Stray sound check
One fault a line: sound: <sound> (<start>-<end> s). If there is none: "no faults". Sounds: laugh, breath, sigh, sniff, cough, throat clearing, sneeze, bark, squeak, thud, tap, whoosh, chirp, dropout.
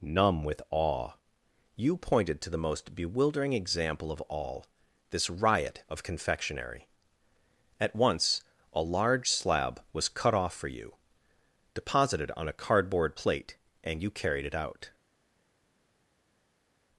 no faults